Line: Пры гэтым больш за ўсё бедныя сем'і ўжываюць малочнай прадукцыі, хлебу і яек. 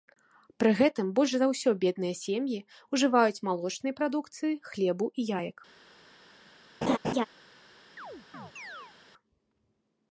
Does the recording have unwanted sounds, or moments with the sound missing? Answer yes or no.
yes